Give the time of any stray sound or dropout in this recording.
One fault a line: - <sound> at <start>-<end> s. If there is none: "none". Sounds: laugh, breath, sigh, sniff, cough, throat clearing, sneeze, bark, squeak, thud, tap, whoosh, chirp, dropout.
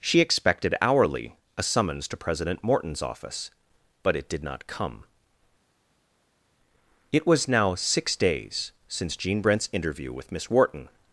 none